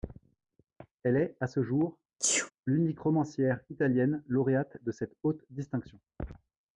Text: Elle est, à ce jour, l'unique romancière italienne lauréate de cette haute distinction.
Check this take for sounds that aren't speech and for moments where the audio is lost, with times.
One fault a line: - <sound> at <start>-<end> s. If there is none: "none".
- sneeze at 2.2-2.5 s